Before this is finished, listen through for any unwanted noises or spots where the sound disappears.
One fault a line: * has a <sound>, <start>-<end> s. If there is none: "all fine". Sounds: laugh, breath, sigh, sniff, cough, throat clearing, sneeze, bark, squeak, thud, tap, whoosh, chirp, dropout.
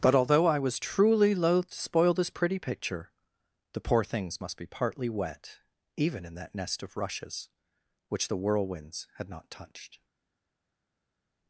all fine